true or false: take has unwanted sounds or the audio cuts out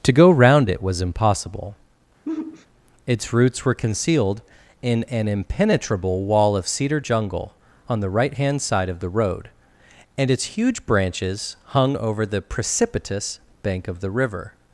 true